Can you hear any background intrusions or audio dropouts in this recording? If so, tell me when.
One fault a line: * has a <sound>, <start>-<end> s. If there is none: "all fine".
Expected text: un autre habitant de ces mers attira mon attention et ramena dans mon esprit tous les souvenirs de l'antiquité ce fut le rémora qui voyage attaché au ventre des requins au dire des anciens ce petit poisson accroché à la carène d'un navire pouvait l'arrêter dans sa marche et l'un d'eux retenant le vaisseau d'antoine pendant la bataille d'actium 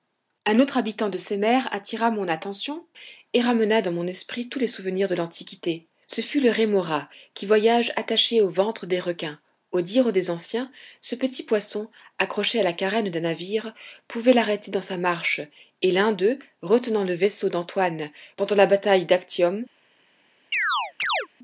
* has a chirp, 20.5-21.3 s